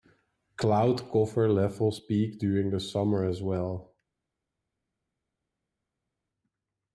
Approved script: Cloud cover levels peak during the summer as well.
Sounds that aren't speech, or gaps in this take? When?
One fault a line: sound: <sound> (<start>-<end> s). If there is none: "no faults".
no faults